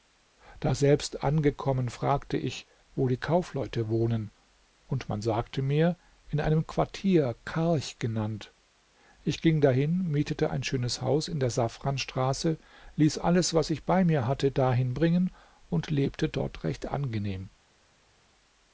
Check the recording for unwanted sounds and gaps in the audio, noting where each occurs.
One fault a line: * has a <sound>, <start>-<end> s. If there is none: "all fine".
all fine